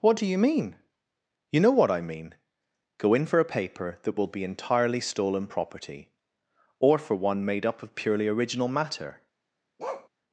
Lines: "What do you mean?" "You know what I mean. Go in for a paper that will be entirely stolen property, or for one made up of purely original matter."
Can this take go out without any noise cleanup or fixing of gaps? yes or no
no